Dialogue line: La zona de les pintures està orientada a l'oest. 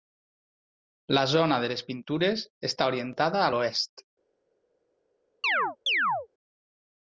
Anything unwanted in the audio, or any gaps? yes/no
yes